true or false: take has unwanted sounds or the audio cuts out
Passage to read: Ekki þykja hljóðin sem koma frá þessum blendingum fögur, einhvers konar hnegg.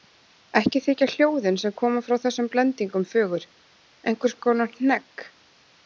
false